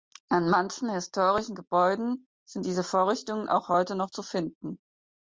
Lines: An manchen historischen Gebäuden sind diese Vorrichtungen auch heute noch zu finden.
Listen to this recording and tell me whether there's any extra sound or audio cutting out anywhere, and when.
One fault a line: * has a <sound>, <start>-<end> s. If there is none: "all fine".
all fine